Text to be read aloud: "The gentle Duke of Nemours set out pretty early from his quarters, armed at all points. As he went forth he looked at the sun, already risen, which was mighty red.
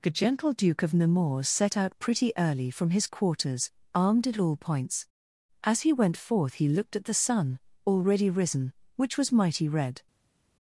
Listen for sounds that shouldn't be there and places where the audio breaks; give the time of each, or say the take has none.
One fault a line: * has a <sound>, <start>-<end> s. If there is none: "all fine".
all fine